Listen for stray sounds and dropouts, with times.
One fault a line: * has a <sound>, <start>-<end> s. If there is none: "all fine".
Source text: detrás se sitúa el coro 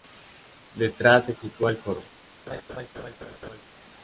* has a laugh, 2.5-3.6 s